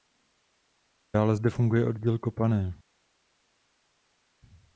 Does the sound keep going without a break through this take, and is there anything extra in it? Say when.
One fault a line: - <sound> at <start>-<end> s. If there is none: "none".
none